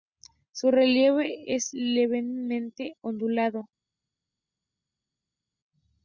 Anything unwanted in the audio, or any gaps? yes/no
no